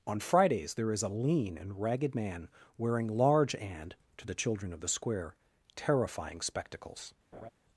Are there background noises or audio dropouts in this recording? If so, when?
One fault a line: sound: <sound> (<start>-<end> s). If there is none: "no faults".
sound: laugh (7.3-7.5 s)